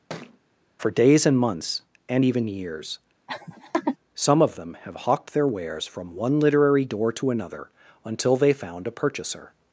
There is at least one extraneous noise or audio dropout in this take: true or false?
true